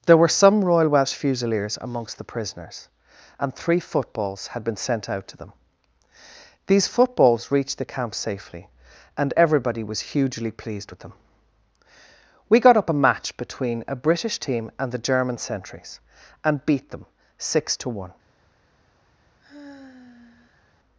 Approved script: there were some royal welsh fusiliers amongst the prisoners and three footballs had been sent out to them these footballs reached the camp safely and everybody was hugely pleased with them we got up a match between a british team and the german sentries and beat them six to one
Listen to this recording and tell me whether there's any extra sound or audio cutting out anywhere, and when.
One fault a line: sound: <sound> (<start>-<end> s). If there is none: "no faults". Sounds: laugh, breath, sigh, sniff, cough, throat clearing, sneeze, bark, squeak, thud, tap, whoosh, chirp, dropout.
sound: sigh (19.4-20.7 s)